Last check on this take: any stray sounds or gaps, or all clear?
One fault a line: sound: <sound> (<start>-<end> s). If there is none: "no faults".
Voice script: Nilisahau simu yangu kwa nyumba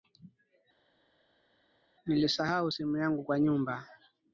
no faults